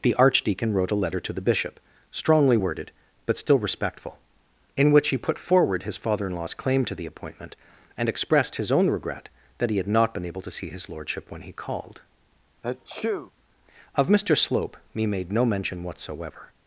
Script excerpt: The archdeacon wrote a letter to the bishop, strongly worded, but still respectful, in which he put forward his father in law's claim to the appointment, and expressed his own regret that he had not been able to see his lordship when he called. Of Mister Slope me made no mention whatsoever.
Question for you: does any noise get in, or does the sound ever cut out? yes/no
yes